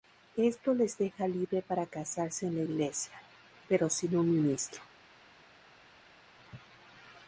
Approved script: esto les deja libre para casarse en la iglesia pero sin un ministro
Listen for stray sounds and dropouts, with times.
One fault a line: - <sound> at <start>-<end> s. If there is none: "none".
none